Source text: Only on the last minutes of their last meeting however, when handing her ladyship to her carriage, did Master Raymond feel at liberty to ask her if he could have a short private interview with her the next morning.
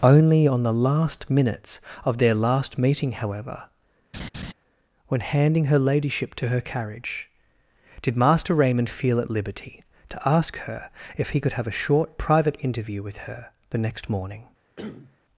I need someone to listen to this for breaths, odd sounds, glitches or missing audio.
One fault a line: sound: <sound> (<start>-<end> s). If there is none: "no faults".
sound: laugh (4.1-4.5 s)
sound: cough (14.8-15.2 s)